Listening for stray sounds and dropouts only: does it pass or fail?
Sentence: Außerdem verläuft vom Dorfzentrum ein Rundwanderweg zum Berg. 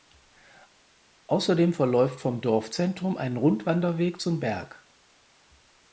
pass